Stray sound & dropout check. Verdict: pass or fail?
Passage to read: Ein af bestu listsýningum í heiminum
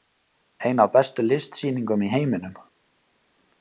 pass